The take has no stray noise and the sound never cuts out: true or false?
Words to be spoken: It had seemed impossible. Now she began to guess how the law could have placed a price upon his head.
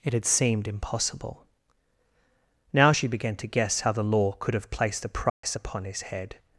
false